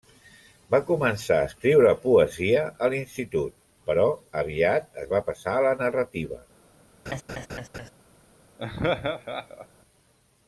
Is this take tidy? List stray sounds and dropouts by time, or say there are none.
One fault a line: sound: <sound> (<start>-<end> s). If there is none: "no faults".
sound: laugh (7.1-7.9 s)
sound: laugh (8.6-9.7 s)